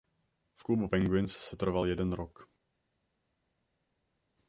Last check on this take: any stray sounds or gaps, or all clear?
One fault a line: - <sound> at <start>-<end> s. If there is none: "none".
none